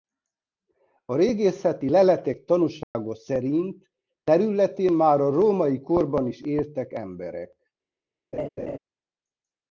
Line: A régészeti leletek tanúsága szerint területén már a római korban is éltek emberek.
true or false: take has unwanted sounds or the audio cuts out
true